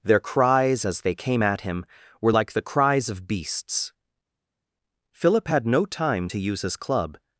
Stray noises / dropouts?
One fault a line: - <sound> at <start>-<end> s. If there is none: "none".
none